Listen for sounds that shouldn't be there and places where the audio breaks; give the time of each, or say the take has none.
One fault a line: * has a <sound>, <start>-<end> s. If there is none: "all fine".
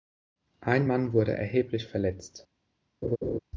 * has a laugh, 3.0-3.4 s